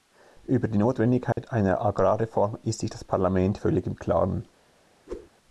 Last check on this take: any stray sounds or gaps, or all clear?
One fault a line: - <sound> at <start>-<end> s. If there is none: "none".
- dropout at 1.3-1.4 s
- whoosh at 5.1-5.3 s